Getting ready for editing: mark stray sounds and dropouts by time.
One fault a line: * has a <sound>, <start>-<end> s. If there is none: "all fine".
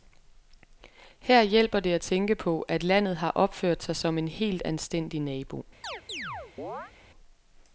* has a chirp, 5.8-6.9 s